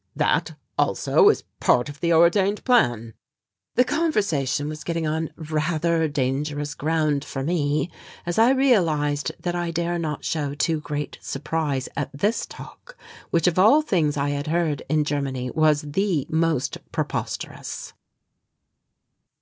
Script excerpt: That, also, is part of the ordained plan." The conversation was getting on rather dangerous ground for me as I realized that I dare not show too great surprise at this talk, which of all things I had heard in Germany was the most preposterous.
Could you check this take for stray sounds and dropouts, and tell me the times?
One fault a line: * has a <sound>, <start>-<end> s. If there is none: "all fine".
all fine